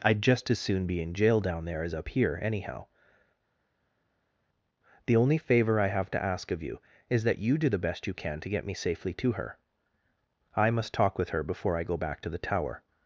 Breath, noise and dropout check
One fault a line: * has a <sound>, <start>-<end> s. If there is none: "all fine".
all fine